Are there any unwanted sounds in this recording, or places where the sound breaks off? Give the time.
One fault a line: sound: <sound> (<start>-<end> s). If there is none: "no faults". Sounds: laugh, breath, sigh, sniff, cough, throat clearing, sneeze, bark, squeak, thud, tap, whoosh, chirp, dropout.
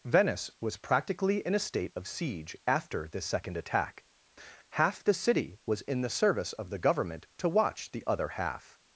no faults